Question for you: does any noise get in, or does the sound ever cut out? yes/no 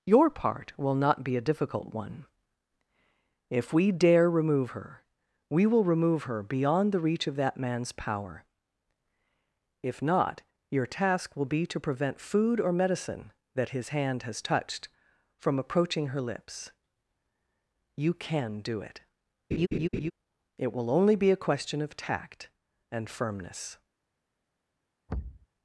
yes